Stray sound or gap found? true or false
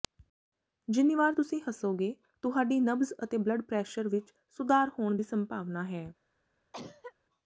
true